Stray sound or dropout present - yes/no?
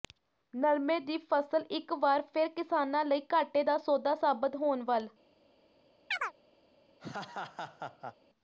yes